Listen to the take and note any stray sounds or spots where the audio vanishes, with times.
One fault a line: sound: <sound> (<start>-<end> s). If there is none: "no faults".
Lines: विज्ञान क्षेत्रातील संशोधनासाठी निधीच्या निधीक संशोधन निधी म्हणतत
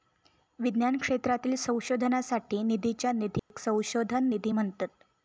sound: dropout (3.4-3.5 s)